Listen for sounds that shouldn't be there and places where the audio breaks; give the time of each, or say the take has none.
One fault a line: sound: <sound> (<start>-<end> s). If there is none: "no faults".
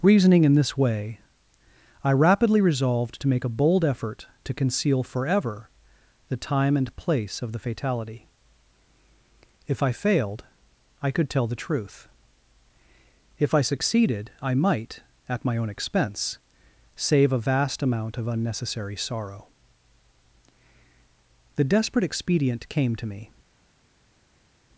no faults